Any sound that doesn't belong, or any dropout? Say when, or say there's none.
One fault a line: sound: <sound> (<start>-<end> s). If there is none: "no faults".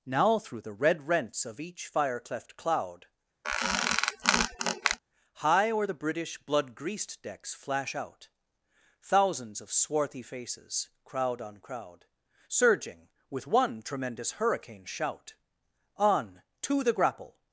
sound: squeak (3.4-5.0 s)